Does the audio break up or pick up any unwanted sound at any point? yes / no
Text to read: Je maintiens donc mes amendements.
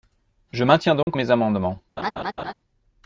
yes